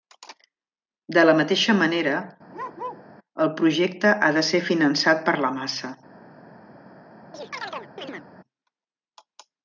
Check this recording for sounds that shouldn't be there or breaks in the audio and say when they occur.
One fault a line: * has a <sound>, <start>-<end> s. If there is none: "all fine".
* has a bark, 2.5-3.1 s
* has a chirp, 7.3-8.3 s